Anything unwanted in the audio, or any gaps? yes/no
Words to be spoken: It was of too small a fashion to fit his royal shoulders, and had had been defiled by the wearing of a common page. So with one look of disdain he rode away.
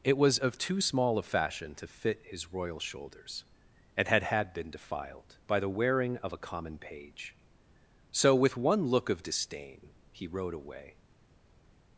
no